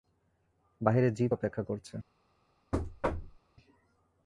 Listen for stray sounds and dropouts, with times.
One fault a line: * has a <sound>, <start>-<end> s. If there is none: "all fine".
* has a thud, 2.7-3.4 s